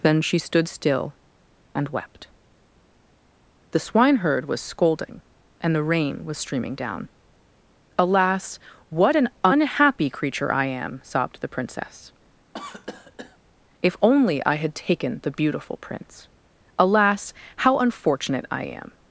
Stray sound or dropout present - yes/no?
yes